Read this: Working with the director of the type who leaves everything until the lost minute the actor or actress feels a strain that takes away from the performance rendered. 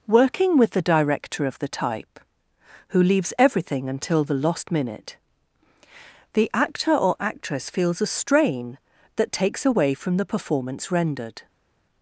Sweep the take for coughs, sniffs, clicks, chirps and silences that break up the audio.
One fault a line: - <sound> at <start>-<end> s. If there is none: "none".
none